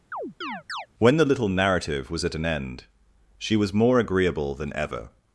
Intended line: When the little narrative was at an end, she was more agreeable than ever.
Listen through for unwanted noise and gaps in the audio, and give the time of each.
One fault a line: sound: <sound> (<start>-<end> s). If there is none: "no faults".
sound: chirp (0.1-0.9 s)